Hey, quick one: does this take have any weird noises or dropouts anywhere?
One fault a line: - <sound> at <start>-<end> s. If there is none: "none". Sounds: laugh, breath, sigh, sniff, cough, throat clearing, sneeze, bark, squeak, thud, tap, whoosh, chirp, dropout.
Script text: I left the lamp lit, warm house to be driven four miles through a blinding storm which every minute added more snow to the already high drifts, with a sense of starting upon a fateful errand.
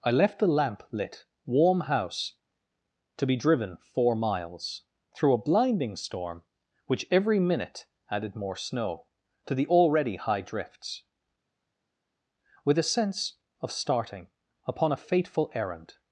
none